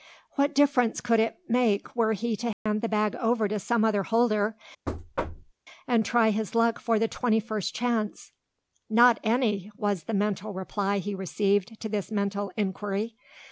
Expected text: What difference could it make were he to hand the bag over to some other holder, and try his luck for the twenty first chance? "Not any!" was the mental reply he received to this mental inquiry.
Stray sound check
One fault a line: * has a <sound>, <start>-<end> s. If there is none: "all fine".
* has a dropout, 2.5-2.7 s
* has a thud, 4.9-5.5 s